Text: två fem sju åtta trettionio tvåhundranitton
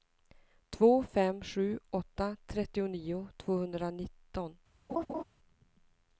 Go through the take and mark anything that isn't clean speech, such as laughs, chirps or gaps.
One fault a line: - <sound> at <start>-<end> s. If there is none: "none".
- laugh at 4.9-5.2 s